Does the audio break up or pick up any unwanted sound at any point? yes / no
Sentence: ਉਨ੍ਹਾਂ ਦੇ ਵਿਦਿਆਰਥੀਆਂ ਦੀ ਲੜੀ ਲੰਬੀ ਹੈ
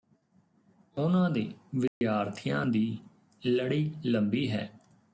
yes